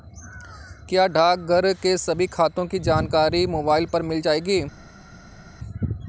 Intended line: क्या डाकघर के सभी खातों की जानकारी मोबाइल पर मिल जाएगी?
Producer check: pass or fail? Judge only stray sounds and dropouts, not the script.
pass